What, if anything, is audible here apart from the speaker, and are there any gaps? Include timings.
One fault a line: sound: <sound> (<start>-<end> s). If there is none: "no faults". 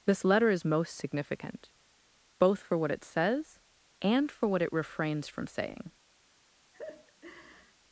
sound: laugh (6.7-7.7 s)